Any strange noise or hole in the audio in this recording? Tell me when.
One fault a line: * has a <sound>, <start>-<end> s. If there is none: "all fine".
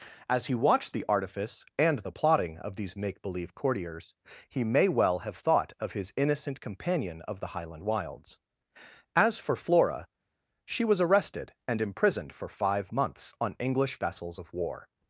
all fine